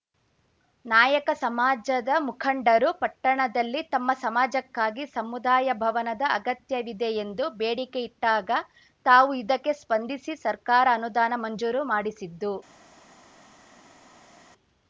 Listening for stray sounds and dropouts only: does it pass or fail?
pass